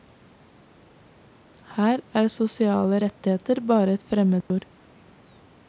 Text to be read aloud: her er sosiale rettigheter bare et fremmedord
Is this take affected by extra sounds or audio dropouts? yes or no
yes